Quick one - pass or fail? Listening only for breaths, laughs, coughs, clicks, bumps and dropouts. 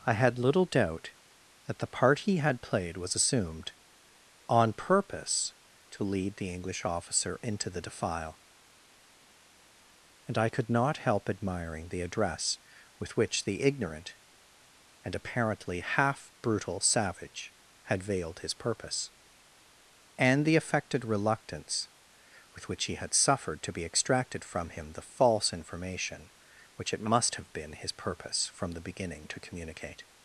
pass